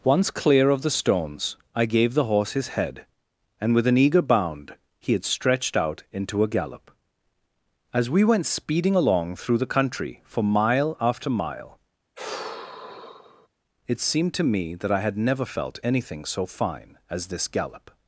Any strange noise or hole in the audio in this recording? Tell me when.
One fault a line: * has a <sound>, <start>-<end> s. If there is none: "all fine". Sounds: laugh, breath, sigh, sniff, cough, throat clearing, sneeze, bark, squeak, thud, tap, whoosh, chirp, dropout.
* has a sigh, 12.2-13.5 s